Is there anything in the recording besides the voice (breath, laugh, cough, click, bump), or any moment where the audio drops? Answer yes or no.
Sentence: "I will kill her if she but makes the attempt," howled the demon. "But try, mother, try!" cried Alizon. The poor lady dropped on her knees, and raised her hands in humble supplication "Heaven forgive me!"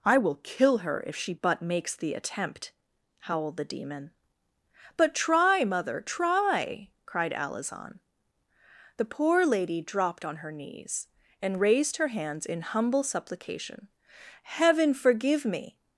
no